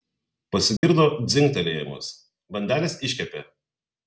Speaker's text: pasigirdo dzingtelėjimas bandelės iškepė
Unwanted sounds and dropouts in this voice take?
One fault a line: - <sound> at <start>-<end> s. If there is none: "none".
- dropout at 0.8-0.8 s